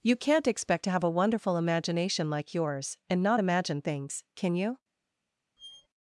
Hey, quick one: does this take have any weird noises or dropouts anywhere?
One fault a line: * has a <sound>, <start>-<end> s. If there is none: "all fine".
* has a squeak, 5.6-5.9 s